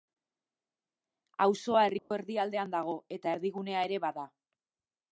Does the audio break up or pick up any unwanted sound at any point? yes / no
yes